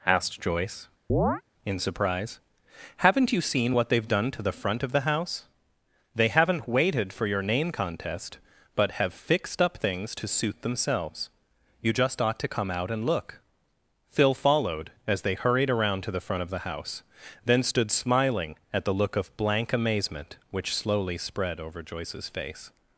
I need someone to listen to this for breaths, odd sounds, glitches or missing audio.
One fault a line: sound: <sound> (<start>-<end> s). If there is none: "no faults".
sound: chirp (1.1-1.4 s)